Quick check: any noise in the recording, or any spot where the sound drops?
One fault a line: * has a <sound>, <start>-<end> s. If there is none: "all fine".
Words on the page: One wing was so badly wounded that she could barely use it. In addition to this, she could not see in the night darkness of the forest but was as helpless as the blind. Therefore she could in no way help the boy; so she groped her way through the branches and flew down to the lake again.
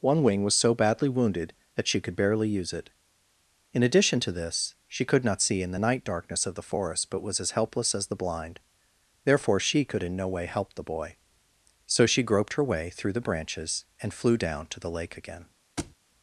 * has a thud, 15.8-16.0 s